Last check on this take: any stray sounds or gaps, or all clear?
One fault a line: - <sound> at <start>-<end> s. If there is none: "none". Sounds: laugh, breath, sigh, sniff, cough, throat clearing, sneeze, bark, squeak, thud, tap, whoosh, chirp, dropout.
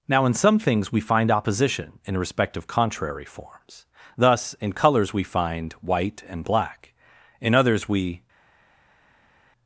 none